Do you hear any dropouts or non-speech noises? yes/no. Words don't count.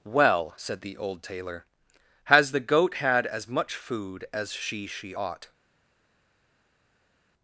no